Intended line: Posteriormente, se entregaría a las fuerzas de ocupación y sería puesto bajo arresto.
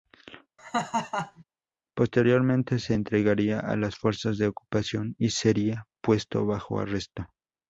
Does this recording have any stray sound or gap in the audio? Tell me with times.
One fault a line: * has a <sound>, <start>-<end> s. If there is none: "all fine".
* has a laugh, 0.6-1.4 s